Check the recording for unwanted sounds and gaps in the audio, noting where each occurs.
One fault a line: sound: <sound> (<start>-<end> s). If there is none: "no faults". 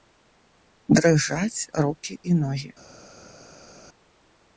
no faults